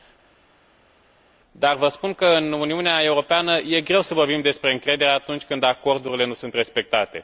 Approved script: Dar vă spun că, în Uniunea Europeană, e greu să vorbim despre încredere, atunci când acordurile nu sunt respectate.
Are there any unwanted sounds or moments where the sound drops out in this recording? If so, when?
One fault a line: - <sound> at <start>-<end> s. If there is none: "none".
none